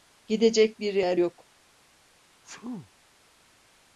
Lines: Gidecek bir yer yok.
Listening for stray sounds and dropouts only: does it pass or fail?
fail